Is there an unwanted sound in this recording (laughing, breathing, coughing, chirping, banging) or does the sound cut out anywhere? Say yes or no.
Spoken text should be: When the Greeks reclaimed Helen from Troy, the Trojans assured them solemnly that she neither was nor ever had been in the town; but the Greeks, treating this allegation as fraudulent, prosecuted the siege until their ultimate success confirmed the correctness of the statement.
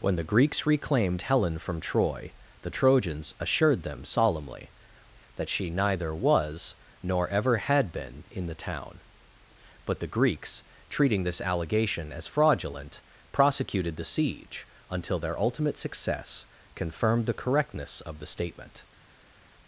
no